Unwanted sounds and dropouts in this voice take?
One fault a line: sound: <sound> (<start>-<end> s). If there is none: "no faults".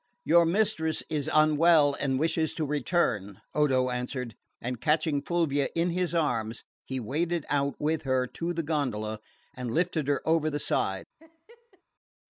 sound: laugh (11.2-11.8 s)